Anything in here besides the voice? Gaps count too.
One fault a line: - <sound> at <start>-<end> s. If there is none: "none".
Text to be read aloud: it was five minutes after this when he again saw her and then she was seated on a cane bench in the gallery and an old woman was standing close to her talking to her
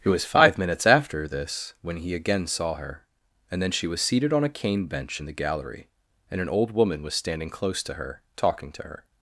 none